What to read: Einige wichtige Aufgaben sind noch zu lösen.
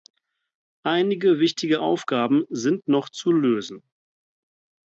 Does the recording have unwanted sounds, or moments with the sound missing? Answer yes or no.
no